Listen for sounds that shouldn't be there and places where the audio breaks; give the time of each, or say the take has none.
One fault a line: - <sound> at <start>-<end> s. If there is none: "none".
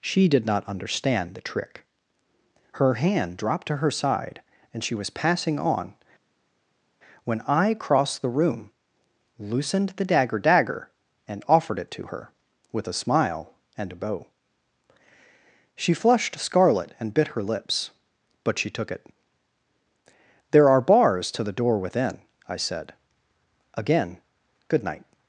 none